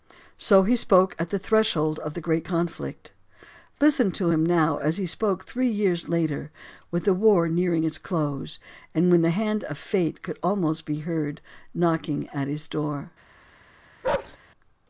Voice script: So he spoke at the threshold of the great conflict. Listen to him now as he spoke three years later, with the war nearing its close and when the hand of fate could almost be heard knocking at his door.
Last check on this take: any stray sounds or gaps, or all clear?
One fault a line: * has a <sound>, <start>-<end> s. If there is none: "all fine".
* has a bark, 14.0-14.4 s